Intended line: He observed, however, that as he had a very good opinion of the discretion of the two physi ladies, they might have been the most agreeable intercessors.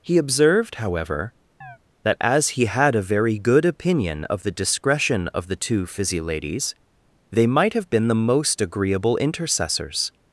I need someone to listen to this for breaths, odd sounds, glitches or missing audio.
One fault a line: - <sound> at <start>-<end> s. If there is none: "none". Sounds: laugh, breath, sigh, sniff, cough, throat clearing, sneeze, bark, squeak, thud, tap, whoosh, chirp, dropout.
- chirp at 1.6-1.8 s